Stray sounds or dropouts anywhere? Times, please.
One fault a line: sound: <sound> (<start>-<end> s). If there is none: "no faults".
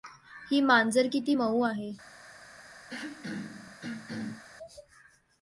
sound: throat clearing (2.9-4.4 s)